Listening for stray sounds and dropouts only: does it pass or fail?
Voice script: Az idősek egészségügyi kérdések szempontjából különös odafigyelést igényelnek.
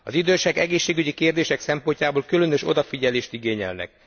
pass